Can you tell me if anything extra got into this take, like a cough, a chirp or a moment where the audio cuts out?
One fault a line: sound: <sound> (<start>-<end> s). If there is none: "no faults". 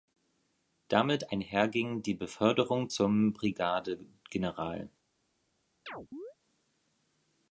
sound: chirp (5.9-6.3 s)